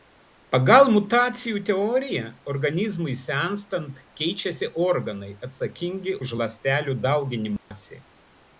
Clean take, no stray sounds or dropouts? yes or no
no